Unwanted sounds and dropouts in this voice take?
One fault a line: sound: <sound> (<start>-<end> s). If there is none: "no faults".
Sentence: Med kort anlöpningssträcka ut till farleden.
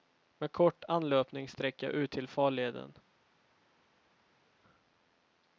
no faults